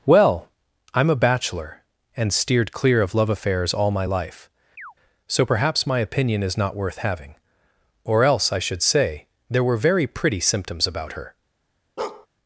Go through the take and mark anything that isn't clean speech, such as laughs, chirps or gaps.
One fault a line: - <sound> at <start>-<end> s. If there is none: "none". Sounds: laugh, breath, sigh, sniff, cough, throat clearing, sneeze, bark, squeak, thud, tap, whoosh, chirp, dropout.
- chirp at 4.8-4.9 s
- bark at 12.0-12.3 s